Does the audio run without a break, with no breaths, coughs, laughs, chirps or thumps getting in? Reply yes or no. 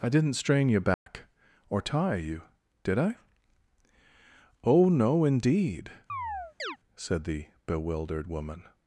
no